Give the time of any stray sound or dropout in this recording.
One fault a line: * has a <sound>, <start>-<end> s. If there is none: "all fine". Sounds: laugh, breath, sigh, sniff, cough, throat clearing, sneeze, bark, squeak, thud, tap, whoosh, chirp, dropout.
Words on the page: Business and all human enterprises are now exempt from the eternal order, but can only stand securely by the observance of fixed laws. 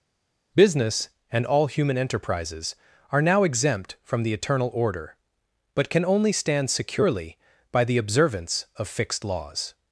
all fine